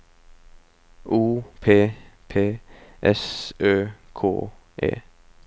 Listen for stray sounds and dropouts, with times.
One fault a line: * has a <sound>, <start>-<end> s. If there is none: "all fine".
all fine